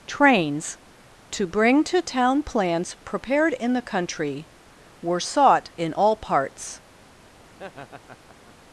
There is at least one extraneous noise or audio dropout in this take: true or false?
true